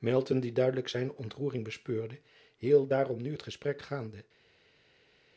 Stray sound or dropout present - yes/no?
no